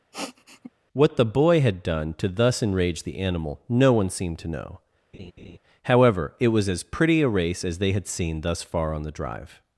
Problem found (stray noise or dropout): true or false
true